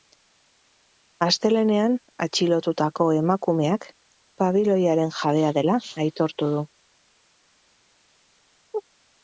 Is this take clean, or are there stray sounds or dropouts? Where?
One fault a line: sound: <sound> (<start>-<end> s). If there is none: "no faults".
no faults